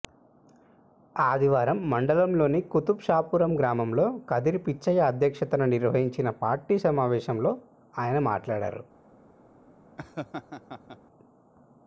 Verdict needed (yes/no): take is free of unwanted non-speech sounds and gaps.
no